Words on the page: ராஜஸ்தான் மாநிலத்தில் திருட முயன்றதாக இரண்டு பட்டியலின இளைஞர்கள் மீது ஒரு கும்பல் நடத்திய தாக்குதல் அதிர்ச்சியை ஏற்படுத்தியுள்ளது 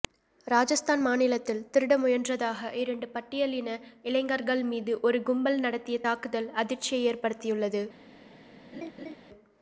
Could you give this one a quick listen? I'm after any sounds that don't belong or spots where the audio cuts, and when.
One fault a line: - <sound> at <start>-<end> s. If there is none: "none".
- laugh at 8.7-9.2 s